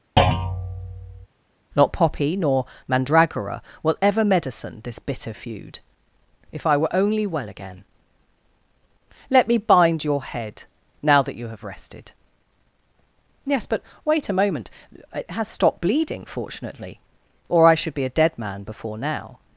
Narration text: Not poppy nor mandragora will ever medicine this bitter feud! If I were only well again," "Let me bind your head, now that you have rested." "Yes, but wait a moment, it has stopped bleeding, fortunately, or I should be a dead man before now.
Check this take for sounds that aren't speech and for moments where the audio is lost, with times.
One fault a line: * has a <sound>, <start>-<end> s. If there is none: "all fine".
* has a thud, 0.2-1.3 s